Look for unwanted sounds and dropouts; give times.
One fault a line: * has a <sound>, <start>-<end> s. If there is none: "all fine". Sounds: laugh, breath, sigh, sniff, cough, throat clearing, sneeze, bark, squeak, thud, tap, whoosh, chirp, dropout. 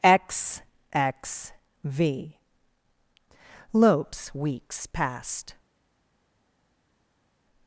all fine